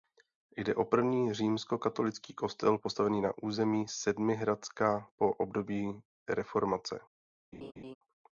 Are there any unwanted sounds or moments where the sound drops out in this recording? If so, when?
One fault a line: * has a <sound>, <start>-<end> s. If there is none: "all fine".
* has a laugh, 7.5-8.0 s